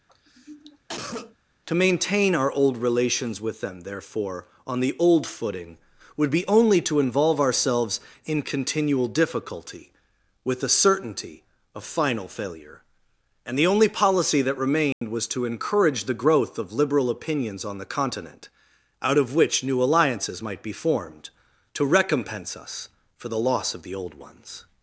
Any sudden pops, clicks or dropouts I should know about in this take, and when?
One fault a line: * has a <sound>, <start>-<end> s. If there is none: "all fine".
* has a cough, 0.1-1.4 s
* has a dropout, 14.9-15.0 s